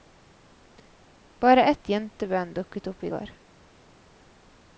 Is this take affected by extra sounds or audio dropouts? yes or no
no